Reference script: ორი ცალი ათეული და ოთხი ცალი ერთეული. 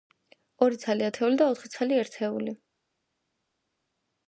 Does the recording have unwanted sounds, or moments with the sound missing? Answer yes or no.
no